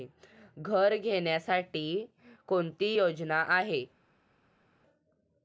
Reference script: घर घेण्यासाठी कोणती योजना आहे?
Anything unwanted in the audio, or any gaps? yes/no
no